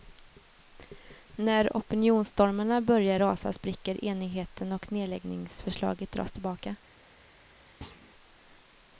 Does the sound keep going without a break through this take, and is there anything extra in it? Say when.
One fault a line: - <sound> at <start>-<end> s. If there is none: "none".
- thud at 7.8-8.1 s